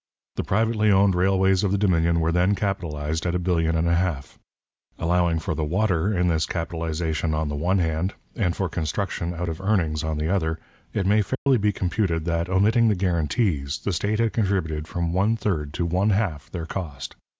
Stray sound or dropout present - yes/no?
yes